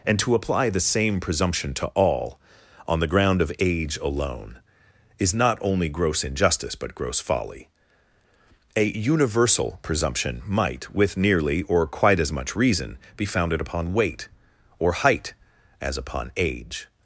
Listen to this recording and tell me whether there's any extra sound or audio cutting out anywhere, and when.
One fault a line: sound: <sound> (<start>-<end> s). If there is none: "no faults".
no faults